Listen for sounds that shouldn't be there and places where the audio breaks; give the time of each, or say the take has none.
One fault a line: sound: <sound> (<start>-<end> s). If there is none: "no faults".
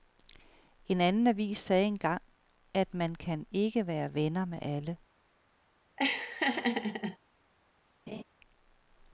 sound: laugh (6.0-7.2 s)
sound: laugh (8.1-8.2 s)